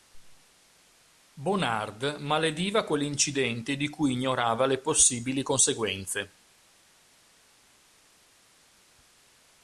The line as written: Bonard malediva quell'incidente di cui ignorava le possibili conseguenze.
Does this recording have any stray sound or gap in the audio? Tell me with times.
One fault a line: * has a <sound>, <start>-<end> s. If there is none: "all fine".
all fine